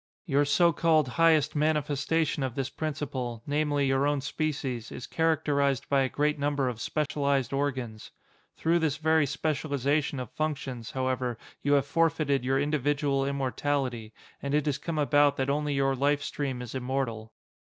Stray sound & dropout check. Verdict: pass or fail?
fail